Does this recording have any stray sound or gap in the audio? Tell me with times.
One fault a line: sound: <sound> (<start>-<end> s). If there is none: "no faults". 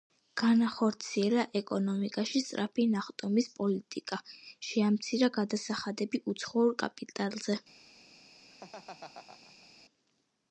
sound: laugh (8.5-9.7 s)